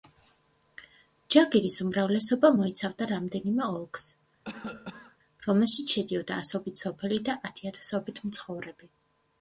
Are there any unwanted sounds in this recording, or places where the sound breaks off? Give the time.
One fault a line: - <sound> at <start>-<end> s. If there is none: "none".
- cough at 4.5-5.2 s